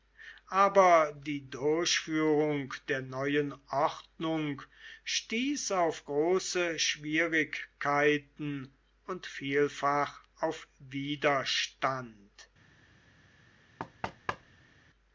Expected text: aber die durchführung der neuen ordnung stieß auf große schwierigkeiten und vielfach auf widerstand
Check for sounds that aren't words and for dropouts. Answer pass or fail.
fail